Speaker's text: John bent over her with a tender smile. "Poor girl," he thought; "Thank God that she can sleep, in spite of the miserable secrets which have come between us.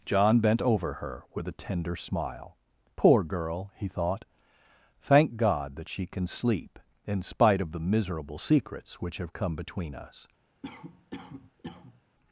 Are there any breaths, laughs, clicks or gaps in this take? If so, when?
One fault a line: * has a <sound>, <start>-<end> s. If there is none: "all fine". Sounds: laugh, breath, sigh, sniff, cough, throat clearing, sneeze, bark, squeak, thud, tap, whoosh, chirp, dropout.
* has a cough, 10.6-12.0 s